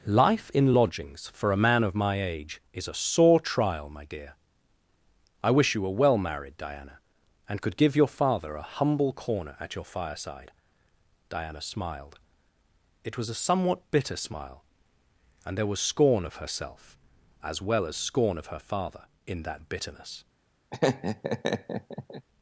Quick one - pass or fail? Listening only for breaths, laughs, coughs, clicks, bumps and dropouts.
fail